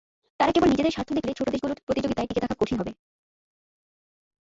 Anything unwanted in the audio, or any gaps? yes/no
no